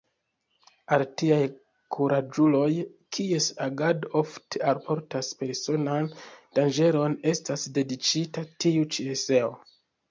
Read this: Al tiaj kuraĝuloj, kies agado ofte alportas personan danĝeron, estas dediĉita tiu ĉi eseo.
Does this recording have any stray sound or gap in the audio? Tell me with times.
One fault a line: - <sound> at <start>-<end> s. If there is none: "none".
none